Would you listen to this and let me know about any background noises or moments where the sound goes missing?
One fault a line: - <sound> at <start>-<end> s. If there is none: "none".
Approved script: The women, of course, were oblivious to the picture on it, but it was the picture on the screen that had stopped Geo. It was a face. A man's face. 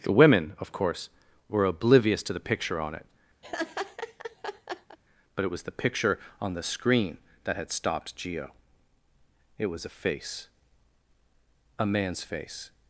- laugh at 3.4-5.0 s